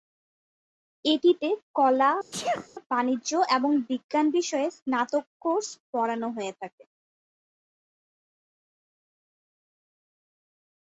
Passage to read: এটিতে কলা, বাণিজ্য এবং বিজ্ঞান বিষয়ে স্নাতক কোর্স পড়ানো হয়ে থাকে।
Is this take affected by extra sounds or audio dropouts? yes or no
yes